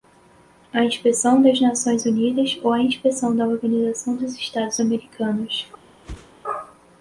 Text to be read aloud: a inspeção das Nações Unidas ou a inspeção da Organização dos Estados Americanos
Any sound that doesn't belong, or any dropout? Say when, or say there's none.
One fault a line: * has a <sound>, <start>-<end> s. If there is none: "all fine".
* has a whoosh, 6.0-6.3 s